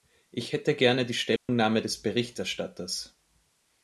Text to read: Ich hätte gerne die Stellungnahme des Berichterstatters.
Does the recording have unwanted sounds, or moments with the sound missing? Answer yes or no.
yes